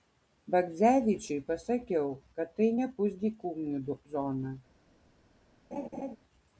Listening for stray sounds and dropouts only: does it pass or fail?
fail